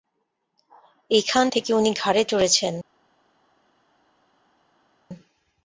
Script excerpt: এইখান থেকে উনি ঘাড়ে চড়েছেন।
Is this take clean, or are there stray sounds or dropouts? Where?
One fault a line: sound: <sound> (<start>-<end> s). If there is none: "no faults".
no faults